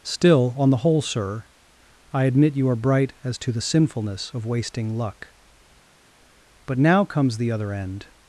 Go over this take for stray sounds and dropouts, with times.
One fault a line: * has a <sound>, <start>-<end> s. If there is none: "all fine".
all fine